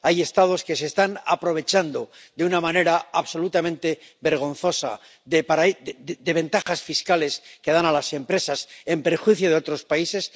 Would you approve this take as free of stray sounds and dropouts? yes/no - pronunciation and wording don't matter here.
no